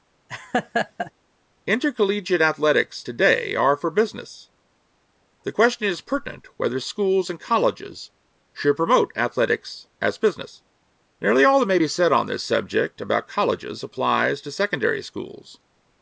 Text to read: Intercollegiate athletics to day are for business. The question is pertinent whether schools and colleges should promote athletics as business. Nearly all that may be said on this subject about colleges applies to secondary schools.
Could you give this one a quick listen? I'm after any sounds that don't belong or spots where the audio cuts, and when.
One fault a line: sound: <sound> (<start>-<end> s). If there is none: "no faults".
sound: laugh (0.3-1.1 s)